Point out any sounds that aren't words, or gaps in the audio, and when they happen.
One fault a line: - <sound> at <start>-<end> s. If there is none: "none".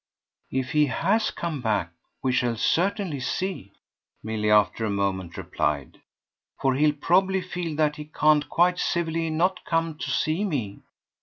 none